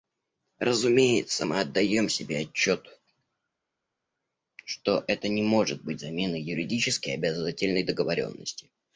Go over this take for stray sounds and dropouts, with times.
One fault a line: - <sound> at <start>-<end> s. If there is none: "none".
none